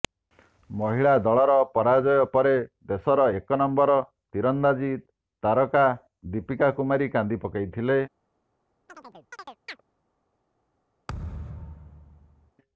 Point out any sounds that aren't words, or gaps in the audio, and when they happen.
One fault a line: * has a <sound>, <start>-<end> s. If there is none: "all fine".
* has a chirp, 8.9-9.8 s
* has a thud, 11.1-12.5 s